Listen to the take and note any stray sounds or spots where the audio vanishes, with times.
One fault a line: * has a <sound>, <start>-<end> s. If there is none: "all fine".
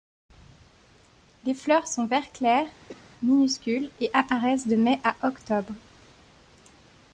* has a cough, 2.9-3.1 s